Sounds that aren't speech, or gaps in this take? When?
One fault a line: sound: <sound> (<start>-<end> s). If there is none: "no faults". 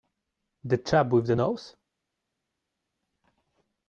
no faults